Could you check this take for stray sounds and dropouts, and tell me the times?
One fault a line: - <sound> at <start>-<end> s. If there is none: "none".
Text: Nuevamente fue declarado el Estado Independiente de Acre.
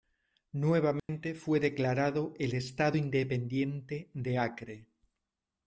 - dropout at 1.0-1.1 s